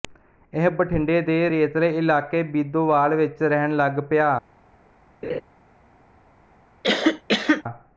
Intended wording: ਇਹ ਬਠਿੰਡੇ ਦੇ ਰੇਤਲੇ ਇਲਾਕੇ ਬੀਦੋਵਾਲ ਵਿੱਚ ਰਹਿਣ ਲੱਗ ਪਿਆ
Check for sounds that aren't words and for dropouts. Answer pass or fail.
fail